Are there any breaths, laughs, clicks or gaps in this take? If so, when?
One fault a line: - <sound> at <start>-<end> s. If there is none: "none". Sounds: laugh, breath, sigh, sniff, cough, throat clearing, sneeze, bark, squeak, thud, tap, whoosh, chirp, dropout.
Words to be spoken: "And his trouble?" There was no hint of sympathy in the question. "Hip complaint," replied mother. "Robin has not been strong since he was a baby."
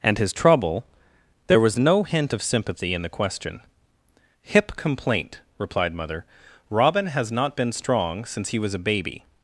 none